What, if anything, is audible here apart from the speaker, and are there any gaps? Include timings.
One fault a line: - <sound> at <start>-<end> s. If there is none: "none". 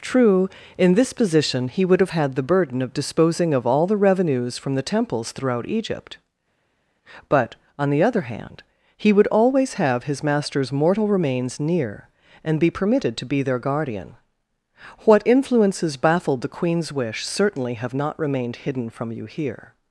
none